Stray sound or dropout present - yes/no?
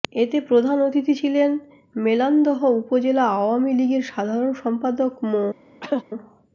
yes